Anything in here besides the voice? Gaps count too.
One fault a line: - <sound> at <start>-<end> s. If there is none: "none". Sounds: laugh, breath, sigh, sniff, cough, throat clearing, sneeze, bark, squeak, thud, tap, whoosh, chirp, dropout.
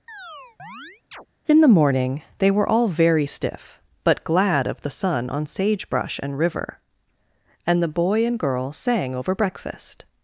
- chirp at 0.1-1.3 s